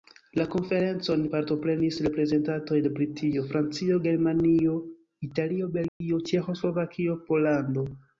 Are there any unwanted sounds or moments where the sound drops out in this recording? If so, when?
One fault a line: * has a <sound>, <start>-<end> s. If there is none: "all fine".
* has a dropout, 5.9-6.0 s